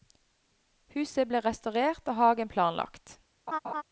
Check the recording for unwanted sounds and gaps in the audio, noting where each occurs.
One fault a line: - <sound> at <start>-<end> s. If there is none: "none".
- laugh at 3.5-3.8 s